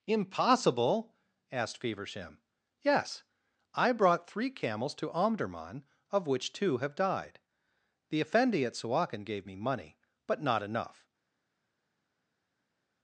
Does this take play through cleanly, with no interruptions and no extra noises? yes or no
yes